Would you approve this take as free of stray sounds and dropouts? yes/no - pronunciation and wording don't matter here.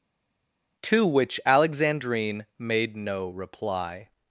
yes